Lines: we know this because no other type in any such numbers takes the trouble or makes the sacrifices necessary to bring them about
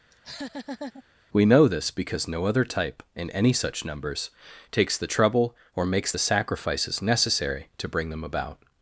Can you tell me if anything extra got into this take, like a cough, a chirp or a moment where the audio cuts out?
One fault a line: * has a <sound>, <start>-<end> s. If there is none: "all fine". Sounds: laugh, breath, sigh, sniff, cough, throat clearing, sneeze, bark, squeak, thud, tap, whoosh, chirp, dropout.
* has a laugh, 0.1-1.0 s